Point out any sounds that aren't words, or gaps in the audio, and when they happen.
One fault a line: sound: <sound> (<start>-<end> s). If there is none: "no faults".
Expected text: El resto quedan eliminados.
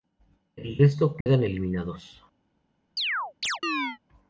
sound: dropout (1.2-1.3 s)
sound: chirp (3.0-4.0 s)